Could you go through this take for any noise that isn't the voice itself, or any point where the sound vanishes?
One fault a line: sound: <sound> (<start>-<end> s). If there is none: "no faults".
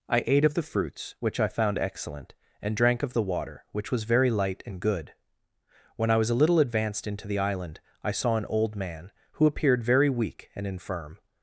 no faults